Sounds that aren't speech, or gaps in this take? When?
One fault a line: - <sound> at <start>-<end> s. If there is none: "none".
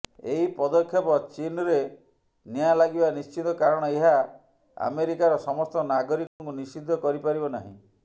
- dropout at 6.3-6.4 s